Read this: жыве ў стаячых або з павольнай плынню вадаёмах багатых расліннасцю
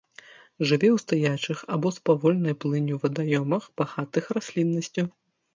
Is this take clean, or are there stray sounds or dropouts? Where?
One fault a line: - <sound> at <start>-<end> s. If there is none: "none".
none